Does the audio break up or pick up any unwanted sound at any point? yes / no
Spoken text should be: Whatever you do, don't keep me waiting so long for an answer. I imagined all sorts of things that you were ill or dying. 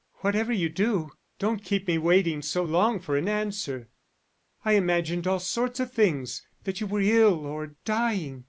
no